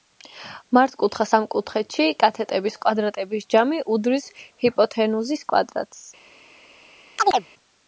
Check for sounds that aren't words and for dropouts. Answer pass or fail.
fail